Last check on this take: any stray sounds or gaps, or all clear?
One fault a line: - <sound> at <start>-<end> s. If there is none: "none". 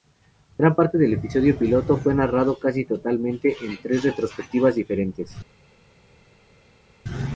none